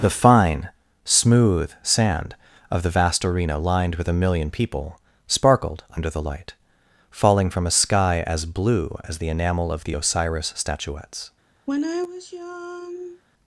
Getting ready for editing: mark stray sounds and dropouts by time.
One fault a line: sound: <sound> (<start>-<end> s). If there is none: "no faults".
sound: sigh (11.7-13.2 s)